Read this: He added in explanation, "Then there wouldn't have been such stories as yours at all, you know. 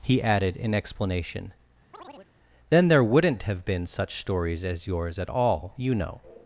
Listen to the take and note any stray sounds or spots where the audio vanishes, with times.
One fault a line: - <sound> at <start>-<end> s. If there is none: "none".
- chirp at 1.9-2.3 s